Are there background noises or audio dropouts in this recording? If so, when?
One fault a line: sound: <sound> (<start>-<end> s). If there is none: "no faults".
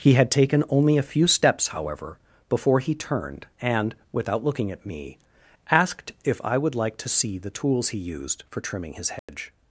sound: dropout (9.2-9.3 s)